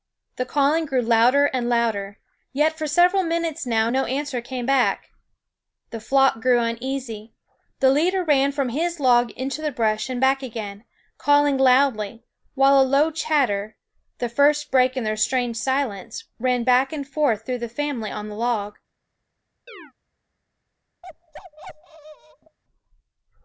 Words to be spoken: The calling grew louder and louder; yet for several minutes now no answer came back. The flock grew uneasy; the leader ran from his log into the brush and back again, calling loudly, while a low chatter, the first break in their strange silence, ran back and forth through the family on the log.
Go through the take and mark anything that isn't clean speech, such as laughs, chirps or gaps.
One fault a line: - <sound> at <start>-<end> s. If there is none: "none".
- chirp at 19.7-19.9 s
- bark at 21.0-22.6 s